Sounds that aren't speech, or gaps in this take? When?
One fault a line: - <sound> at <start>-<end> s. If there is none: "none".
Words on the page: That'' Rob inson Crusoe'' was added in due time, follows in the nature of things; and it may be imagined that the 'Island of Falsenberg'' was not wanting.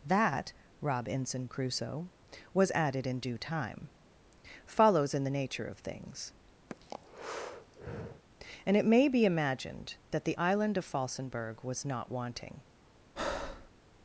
- breath at 6.7-8.2 s
- breath at 13.2-13.7 s